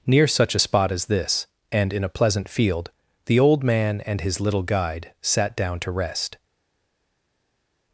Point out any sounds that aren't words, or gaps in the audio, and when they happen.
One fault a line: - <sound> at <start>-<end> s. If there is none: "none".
none